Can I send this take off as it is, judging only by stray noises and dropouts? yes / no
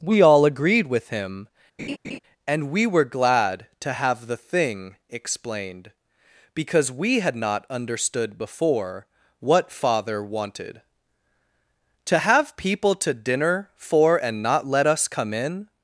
no